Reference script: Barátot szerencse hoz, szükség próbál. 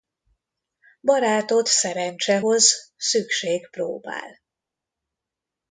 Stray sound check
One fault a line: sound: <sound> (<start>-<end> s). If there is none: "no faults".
no faults